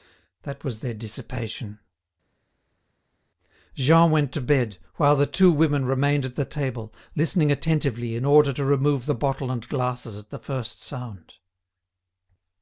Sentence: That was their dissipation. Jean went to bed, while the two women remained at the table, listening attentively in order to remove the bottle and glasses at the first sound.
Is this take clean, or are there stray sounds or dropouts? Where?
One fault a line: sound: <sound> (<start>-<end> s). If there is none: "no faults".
no faults